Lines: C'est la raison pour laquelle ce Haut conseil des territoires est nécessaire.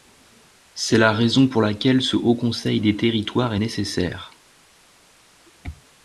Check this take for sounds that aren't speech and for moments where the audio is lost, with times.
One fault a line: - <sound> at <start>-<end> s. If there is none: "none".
none